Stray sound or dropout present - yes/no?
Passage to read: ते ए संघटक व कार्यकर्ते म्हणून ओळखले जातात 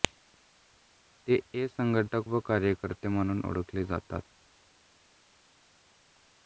no